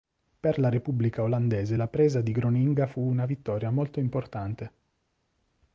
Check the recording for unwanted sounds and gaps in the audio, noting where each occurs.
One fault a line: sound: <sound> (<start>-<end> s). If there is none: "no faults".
no faults